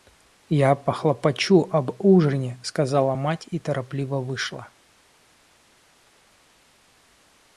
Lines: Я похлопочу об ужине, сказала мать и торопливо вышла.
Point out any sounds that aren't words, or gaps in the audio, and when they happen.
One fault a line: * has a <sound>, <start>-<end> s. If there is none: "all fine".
all fine